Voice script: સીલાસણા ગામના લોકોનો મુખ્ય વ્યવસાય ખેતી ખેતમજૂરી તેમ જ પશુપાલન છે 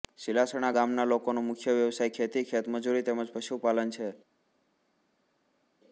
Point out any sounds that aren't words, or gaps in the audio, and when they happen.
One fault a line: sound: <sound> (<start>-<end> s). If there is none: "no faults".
no faults